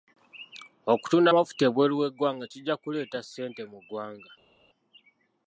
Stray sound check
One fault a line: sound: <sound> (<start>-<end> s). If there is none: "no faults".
no faults